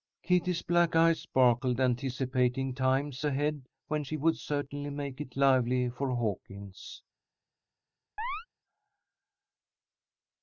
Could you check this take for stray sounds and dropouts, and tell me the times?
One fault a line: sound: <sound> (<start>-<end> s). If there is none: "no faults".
sound: chirp (8.2-8.5 s)